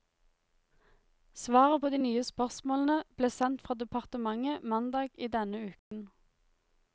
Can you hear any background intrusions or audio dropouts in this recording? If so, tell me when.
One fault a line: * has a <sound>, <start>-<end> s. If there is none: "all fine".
* has a dropout, 5.8-5.9 s